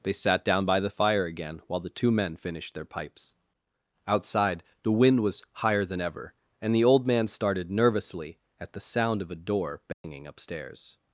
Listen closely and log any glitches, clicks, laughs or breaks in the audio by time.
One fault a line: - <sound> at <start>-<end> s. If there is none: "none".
- dropout at 9.9-10.0 s